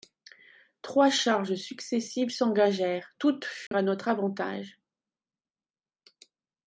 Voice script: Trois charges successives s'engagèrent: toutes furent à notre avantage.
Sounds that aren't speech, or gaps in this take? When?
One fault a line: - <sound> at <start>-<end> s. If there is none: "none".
- dropout at 3.7-3.7 s